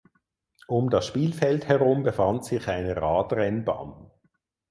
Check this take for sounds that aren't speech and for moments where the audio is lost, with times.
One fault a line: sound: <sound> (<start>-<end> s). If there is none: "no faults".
no faults